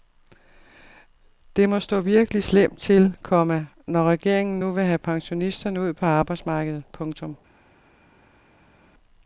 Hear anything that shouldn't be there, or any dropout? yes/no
no